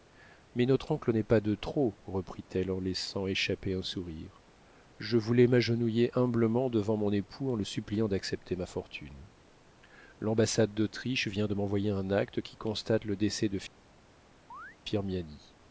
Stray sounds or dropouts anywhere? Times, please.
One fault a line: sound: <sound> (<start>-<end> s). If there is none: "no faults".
sound: chirp (14.5-14.8 s)